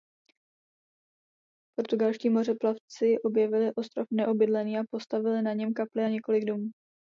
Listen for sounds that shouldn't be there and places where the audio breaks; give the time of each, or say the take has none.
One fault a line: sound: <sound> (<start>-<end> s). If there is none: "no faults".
no faults